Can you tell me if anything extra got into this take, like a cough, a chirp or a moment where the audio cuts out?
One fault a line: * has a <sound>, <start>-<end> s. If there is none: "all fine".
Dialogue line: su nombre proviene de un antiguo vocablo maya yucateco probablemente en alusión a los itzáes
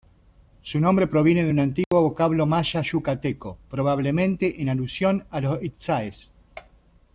* has a dropout, 1.8-1.9 s